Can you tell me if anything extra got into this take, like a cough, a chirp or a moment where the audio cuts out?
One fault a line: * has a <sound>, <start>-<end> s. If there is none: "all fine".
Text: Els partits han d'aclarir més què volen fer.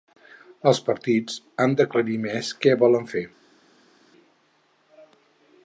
all fine